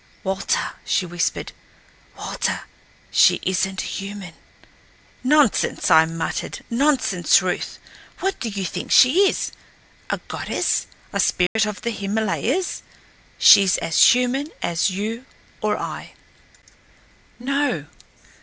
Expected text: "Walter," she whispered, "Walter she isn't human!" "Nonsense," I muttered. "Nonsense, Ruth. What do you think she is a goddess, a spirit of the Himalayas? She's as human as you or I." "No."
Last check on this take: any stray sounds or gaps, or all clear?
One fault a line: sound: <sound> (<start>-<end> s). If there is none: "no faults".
sound: dropout (11.5-11.6 s)